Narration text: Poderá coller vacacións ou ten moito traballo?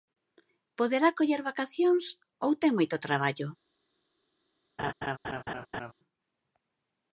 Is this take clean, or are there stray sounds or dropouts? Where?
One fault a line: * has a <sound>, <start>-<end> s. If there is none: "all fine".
* has a laugh, 4.8-5.9 s